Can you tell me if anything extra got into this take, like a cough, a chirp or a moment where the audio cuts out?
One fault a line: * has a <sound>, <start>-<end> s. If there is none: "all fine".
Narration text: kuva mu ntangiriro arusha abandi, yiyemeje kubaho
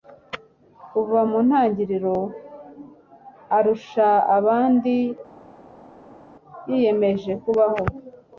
all fine